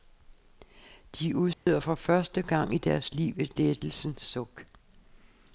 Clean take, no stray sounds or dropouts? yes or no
no